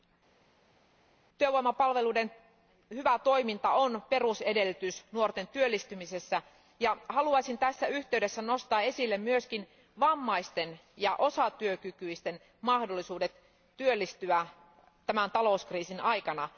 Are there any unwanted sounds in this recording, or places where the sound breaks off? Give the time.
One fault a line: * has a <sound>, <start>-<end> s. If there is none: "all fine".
all fine